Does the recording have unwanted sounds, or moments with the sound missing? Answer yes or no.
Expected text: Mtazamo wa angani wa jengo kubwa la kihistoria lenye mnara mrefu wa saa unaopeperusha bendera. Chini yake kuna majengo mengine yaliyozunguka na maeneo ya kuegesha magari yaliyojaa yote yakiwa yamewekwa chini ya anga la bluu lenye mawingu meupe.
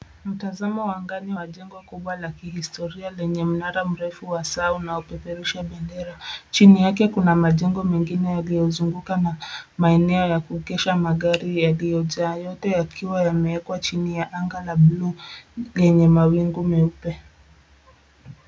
no